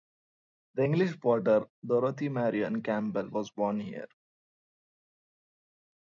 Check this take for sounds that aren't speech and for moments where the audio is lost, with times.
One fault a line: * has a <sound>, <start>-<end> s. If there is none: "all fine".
all fine